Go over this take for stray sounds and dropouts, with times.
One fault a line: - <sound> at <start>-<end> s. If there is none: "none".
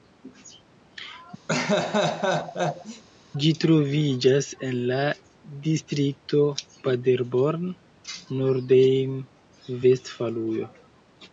- laugh at 1.5-3.0 s